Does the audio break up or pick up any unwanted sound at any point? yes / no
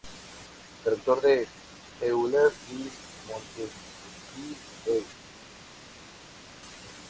no